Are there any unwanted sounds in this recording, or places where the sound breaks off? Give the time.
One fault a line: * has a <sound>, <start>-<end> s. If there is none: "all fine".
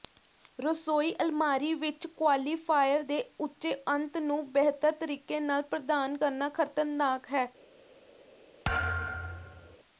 * has a thud, 8.6-9.8 s